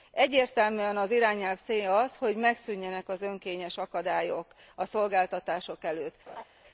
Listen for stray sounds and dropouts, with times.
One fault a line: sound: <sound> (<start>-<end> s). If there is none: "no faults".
sound: laugh (6.3-6.4 s)